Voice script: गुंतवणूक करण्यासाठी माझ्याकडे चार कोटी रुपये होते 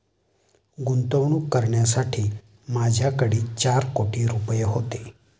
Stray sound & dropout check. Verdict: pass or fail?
pass